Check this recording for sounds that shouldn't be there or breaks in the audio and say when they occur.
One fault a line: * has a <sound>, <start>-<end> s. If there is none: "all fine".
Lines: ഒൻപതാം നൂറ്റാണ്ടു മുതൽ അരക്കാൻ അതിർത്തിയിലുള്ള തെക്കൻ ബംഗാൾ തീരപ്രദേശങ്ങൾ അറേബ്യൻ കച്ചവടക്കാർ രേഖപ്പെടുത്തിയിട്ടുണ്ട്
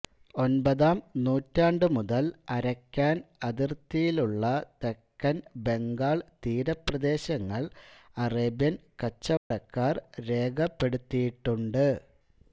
* has a dropout, 9.4-9.5 s